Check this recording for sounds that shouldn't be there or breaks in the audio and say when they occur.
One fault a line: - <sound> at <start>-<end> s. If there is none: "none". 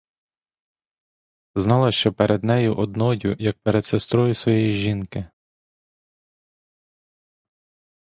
none